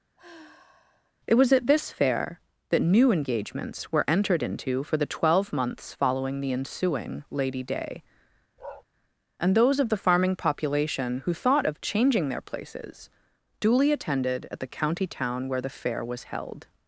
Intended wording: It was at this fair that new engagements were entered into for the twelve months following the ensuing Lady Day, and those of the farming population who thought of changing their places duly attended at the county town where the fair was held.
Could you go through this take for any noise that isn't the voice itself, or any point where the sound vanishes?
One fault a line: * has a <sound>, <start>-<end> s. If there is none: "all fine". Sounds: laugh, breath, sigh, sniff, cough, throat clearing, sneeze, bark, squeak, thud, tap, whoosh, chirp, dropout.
* has a sigh, 0.2-1.1 s
* has a bark, 8.6-8.8 s